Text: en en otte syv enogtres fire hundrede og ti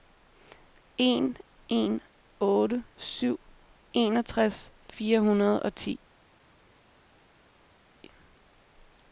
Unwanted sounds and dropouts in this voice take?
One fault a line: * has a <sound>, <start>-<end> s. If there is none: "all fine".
all fine